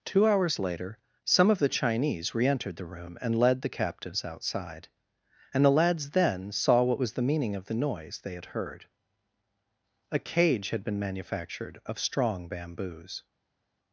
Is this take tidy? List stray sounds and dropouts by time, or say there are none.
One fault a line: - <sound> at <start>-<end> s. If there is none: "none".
none